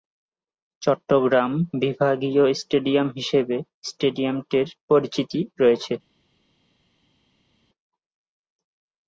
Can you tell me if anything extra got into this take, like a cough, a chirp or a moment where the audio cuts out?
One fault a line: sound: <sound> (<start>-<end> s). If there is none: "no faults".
no faults